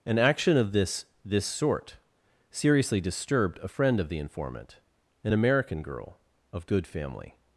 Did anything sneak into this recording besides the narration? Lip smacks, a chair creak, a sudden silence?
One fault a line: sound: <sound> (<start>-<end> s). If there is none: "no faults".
no faults